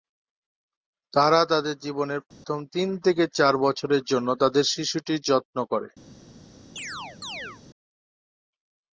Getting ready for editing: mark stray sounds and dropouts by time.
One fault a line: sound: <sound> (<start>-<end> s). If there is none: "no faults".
sound: dropout (2.3-2.4 s)
sound: chirp (6.8-7.6 s)